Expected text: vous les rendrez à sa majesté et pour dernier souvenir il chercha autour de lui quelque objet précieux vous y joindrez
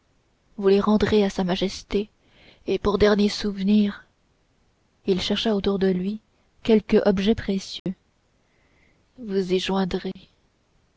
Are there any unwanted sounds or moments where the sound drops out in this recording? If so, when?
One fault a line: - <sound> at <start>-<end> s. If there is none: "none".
- dropout at 7.8-7.9 s
- dropout at 10.1-10.2 s